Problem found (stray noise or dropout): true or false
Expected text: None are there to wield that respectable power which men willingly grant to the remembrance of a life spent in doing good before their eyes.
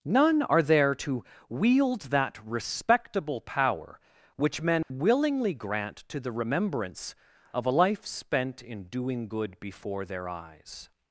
true